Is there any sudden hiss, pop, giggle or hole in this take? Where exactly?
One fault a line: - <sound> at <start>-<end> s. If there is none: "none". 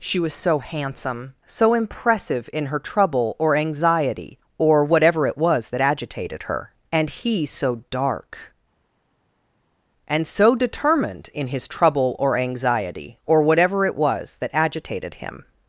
none